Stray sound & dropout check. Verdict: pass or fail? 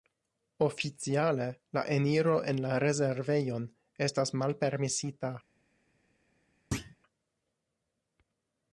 fail